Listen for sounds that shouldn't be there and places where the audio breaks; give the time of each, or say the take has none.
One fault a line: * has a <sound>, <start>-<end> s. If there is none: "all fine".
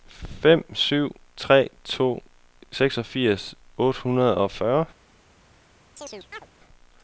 * has a chirp, 6.0-6.5 s